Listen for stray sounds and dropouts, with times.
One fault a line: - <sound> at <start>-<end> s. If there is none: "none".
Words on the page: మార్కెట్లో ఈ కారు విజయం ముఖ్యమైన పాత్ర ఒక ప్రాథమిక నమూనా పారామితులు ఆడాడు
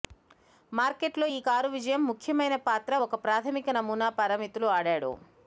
none